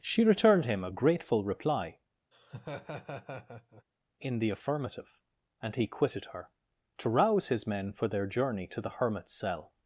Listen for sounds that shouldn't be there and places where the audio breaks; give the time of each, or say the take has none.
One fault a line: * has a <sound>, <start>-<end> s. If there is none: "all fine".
* has a laugh, 2.3-3.8 s